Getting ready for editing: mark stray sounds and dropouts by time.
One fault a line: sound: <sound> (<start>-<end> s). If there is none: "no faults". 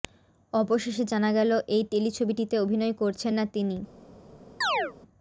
sound: chirp (4.6-4.9 s)